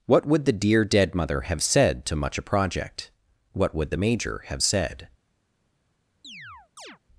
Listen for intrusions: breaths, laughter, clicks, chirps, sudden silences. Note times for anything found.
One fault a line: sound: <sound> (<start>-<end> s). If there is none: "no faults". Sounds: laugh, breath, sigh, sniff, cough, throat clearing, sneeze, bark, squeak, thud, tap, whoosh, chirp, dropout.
sound: chirp (6.2-7.0 s)